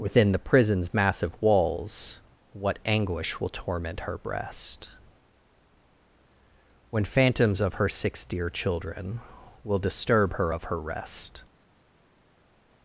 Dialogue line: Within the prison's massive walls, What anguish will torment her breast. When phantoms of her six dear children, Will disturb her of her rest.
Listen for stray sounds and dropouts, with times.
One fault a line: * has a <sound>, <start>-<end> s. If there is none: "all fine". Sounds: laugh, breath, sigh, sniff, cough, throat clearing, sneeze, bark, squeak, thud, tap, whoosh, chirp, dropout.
all fine